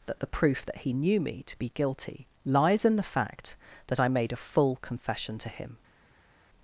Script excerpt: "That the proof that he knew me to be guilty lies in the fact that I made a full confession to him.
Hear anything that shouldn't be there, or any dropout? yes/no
no